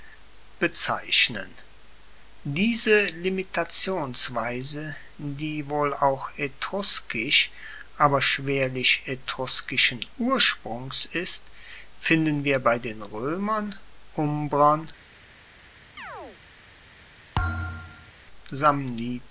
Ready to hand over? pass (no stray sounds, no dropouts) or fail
fail